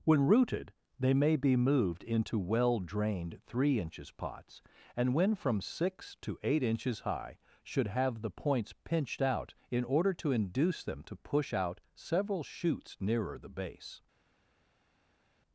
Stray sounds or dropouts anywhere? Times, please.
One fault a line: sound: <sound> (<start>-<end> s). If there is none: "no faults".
no faults